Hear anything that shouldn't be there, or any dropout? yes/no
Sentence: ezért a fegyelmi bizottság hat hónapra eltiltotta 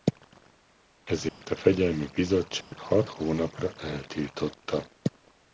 yes